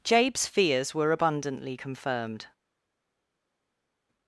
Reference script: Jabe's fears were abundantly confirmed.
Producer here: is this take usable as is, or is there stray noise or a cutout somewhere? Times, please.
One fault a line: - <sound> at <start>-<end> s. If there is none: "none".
none